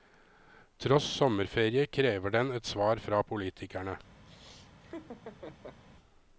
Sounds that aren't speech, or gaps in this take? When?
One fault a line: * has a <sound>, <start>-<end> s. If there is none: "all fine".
* has a laugh, 4.2-5.8 s